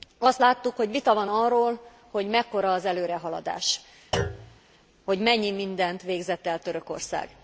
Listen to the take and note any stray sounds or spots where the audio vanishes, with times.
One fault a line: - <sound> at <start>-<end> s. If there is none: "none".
- thud at 4.1-4.6 s